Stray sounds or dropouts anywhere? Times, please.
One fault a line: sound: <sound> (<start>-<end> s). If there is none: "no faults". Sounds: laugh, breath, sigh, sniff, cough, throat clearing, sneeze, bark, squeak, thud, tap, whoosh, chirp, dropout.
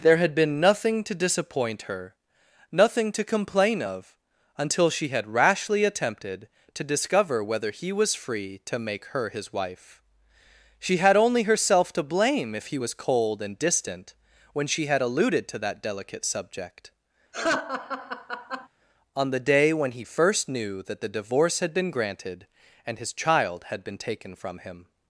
sound: laugh (17.3-18.7 s)